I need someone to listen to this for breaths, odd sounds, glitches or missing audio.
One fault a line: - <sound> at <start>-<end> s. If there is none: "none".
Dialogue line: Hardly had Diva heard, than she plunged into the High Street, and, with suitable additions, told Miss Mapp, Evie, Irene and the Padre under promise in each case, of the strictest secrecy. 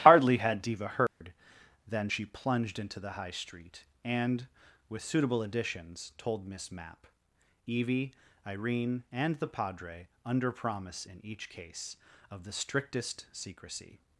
- dropout at 1.1-1.2 s